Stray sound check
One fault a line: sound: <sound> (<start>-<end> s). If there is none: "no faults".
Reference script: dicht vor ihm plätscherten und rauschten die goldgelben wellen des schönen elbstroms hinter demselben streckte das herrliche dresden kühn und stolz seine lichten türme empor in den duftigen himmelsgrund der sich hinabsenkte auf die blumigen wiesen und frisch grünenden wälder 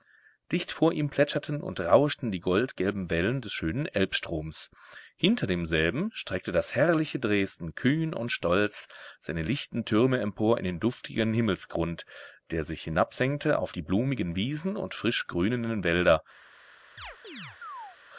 sound: chirp (17.0-18.0 s)